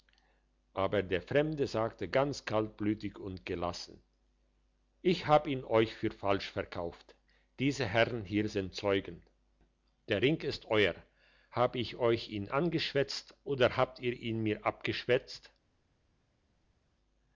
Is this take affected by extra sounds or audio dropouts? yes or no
no